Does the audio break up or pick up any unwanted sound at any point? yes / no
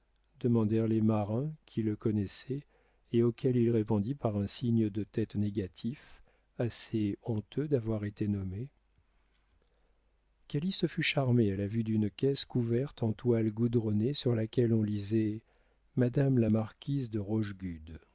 no